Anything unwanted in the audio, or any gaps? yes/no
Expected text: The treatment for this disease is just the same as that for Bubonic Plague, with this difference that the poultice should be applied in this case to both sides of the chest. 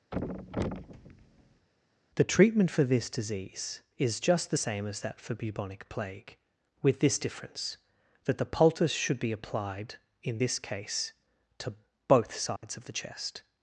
yes